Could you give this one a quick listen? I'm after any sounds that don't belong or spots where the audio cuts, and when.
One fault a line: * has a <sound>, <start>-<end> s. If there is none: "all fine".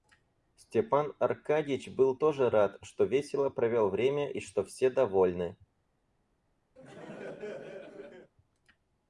* has a laugh, 6.8-8.3 s